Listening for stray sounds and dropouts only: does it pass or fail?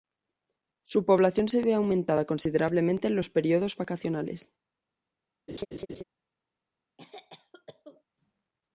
fail